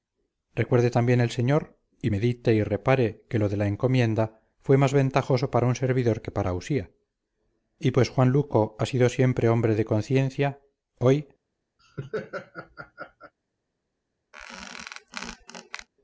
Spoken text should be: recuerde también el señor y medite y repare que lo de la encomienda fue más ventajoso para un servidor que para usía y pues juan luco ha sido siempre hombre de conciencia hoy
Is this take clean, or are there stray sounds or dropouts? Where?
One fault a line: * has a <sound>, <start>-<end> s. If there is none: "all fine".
* has a laugh, 11.8-13.3 s
* has a squeak, 14.3-15.9 s